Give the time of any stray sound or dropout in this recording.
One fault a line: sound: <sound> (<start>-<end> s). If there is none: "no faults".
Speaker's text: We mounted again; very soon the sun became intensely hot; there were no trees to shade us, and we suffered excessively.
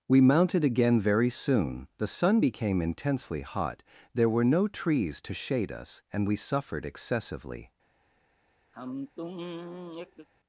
sound: sigh (8.7-10.3 s)